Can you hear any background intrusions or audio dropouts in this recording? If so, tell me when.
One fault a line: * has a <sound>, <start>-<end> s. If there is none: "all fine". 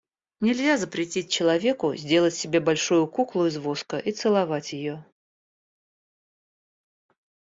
all fine